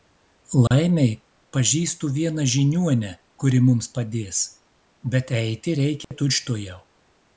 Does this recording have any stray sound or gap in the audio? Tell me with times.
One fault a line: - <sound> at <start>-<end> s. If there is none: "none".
- dropout at 0.7-0.7 s
- dropout at 6.0-6.1 s